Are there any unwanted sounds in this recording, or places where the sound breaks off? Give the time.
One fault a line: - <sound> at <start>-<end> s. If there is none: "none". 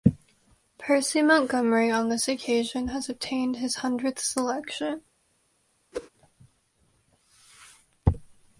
- whoosh at 5.9-6.1 s